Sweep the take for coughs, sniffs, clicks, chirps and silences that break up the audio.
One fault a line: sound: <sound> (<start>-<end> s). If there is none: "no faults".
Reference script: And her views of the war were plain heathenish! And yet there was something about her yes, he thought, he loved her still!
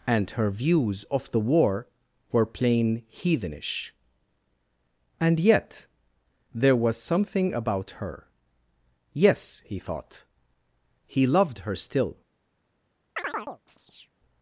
sound: chirp (13.2-14.1 s)